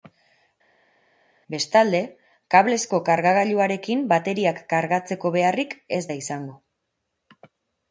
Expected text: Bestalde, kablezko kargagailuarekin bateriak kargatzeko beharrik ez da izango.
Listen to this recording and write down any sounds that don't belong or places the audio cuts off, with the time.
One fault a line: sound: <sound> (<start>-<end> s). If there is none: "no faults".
no faults